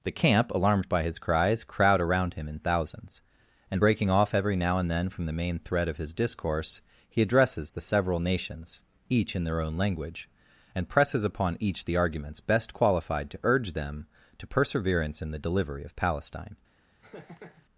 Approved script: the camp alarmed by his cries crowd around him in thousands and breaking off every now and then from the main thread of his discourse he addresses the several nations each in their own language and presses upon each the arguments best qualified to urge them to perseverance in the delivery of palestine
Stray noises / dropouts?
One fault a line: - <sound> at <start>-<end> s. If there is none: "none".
- laugh at 17.0-17.7 s